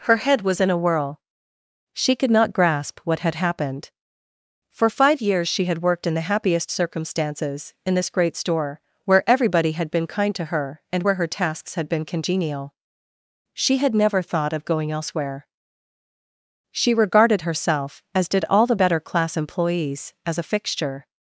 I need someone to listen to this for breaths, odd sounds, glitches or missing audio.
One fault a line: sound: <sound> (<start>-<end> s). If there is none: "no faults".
no faults